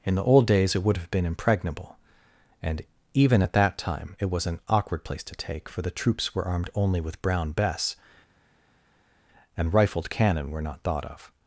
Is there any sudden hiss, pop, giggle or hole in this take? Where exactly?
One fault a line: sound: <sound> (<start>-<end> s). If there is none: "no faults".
no faults